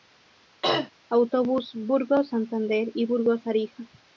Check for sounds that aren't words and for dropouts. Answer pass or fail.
fail